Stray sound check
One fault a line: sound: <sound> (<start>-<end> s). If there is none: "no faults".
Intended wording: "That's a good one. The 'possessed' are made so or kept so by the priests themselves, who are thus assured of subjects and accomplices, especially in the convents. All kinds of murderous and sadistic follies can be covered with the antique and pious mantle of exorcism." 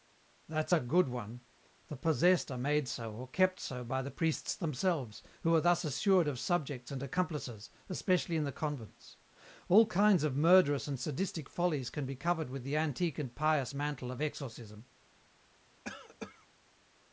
sound: cough (15.8-16.5 s)